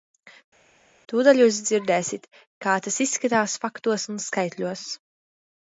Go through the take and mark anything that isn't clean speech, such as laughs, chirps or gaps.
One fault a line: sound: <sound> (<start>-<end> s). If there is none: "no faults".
no faults